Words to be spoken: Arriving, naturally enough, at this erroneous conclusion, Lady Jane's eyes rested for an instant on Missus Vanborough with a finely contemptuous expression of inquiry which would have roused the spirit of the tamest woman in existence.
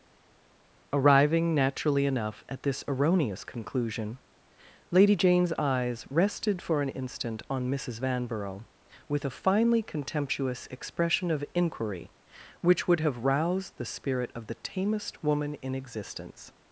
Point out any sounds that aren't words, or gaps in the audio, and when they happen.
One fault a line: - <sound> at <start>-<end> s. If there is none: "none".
none